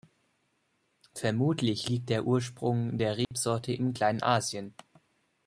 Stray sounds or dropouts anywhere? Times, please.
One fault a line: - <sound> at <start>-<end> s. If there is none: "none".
- dropout at 3.2-3.3 s